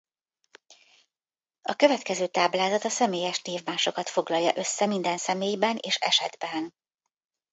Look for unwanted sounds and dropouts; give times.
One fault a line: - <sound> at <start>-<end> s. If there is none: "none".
none